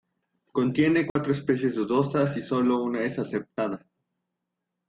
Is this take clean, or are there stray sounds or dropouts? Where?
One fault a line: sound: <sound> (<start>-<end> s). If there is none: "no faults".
sound: dropout (1.1-1.2 s)